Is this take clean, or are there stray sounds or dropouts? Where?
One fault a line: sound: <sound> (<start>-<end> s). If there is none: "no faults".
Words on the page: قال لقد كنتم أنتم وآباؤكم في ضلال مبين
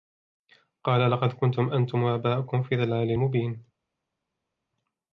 no faults